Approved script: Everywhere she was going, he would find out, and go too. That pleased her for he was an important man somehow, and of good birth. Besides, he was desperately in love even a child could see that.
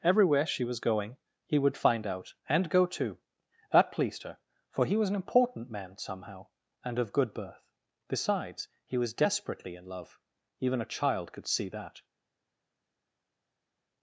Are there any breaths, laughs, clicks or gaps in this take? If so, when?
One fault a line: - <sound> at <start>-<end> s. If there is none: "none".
none